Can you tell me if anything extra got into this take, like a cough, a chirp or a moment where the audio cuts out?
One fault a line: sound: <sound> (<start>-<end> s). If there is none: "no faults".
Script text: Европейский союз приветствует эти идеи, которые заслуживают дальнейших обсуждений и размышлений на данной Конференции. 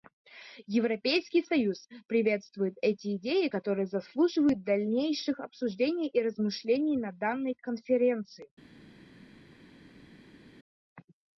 no faults